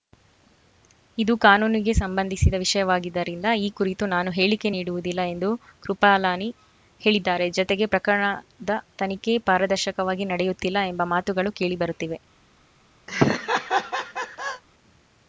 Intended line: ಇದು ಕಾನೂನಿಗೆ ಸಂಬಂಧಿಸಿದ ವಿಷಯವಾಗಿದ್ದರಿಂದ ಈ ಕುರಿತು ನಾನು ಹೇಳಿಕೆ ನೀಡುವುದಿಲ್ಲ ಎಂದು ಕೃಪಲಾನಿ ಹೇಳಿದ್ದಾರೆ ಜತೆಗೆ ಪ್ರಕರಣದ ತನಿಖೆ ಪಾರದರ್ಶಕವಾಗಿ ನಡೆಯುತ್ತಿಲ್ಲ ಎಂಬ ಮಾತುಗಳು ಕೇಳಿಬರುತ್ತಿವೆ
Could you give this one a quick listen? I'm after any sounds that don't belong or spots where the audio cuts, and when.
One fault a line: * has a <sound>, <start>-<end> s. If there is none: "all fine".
* has a laugh, 13.1-14.6 s